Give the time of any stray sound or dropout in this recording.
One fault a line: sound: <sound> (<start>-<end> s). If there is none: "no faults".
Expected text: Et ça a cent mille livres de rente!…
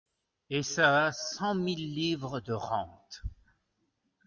no faults